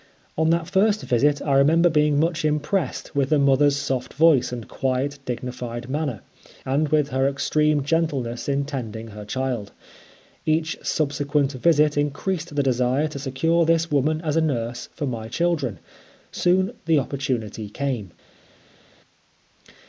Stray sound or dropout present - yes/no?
no